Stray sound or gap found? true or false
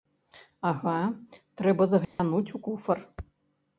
true